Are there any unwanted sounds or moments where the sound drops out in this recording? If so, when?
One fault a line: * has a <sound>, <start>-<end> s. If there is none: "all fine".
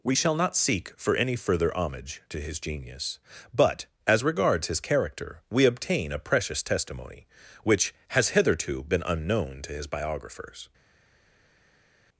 all fine